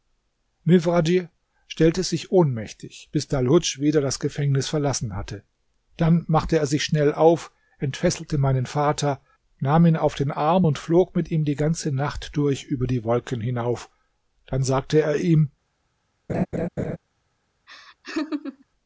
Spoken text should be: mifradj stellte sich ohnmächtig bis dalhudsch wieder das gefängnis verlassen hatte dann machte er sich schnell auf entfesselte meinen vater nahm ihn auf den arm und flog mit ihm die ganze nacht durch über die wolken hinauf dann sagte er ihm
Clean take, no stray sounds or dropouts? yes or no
no